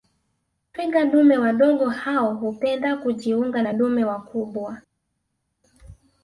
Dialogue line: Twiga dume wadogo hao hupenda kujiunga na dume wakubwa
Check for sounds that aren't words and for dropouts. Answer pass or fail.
pass